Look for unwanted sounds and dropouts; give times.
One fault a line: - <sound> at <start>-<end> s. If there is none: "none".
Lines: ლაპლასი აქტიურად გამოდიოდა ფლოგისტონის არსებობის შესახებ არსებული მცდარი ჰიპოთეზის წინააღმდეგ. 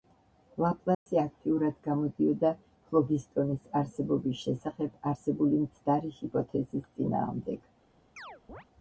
- dropout at 0.9-1.1 s
- chirp at 8.2-8.6 s